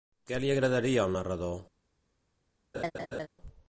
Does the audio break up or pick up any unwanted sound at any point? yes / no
yes